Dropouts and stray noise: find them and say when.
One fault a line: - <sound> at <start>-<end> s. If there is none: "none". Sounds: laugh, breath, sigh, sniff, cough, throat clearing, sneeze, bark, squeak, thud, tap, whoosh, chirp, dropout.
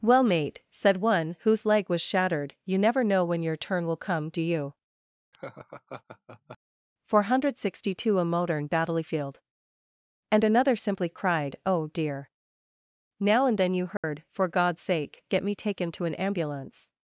- laugh at 5.3-6.6 s
- dropout at 14.0-14.0 s